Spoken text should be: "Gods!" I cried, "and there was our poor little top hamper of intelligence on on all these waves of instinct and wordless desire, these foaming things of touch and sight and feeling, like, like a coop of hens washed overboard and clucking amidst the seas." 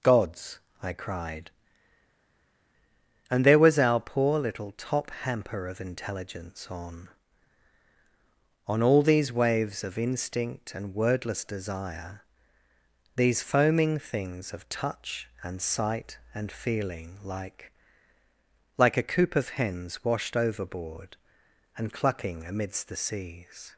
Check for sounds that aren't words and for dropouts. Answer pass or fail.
pass